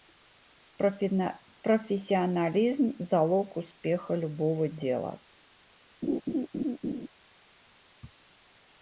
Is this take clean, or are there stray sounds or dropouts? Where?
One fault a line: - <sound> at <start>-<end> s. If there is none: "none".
- laugh at 6.0-7.1 s